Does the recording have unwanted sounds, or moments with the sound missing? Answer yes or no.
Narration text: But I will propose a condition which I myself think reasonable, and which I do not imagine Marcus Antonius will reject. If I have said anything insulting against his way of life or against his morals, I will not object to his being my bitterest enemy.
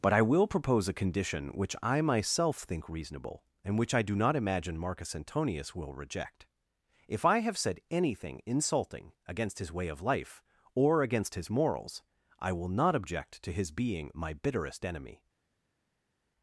no